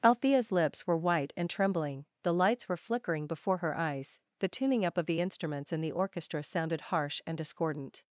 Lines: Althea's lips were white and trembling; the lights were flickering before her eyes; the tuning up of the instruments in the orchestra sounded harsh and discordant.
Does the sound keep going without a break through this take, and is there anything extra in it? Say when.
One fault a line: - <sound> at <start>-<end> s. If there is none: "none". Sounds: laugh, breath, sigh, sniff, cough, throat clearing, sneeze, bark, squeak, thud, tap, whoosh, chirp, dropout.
none